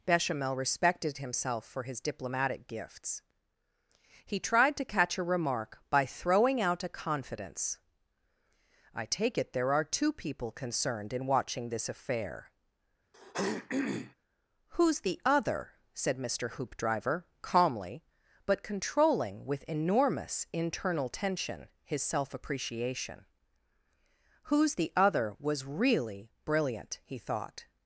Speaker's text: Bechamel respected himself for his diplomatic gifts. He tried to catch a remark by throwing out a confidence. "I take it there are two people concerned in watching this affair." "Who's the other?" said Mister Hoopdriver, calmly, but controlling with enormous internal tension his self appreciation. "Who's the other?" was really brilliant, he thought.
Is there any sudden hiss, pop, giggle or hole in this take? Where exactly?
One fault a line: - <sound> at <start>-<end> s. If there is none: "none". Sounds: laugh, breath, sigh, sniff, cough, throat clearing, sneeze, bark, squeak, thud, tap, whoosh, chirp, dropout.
- throat clearing at 13.1-14.1 s